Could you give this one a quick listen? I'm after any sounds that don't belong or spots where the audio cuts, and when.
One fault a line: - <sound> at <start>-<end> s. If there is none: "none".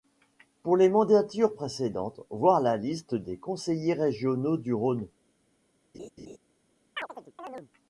- laugh at 5.9-6.4 s
- chirp at 7.0-7.7 s